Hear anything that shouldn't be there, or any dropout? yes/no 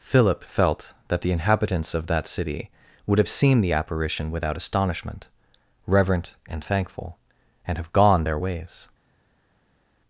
no